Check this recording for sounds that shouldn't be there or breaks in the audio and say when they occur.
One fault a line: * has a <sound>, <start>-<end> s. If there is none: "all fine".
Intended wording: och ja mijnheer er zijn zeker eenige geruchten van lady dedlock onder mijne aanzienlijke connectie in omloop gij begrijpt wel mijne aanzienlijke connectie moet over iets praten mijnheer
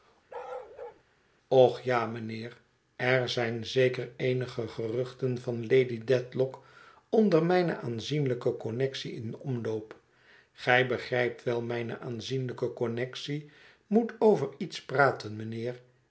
* has a bark, 0.3-1.0 s